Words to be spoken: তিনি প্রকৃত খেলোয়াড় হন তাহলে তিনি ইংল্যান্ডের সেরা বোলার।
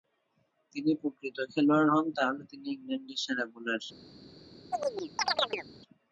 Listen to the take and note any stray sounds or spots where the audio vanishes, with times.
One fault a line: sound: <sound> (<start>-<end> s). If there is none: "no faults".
sound: chirp (4.7-5.7 s)